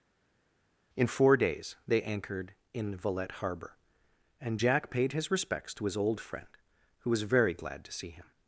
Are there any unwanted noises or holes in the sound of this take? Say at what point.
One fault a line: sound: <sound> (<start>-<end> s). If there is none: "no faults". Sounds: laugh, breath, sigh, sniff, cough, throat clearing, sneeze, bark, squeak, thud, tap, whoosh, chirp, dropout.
no faults